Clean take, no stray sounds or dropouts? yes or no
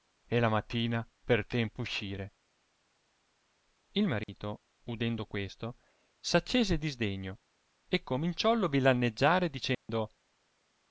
no